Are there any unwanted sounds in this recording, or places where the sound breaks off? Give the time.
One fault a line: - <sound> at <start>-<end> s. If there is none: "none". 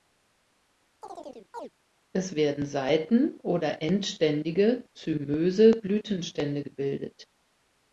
- chirp at 1.0-1.7 s